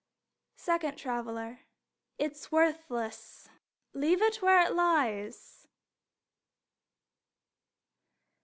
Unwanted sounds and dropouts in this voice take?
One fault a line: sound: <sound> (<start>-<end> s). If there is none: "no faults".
no faults